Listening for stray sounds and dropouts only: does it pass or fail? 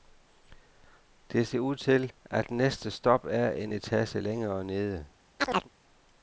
fail